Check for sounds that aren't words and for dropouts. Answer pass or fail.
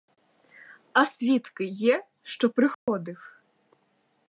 fail